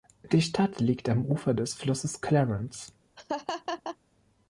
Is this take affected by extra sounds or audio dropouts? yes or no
yes